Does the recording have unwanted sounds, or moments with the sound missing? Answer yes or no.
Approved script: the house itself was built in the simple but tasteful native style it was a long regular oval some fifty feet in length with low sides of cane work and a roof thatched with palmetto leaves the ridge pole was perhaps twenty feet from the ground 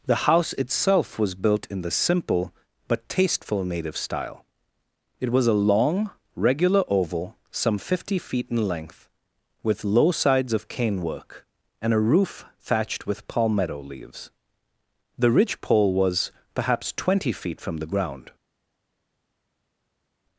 no